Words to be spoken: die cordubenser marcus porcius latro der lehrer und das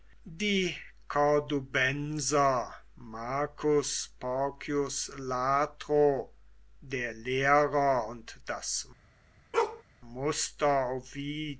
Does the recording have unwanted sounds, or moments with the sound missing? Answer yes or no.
yes